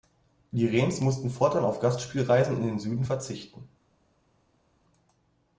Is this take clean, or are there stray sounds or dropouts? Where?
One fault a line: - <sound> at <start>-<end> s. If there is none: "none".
none